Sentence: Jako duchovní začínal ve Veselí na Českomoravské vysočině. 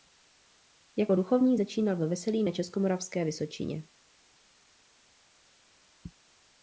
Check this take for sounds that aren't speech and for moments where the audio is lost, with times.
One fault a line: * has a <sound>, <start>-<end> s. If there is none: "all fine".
all fine